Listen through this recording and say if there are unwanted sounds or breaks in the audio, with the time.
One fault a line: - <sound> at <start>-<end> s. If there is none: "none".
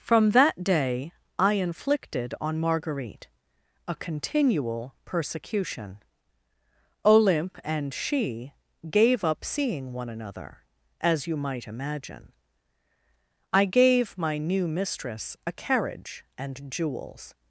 none